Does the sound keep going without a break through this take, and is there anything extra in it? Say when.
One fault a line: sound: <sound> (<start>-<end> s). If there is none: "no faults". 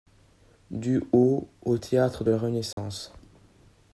sound: dropout (2.7-2.8 s)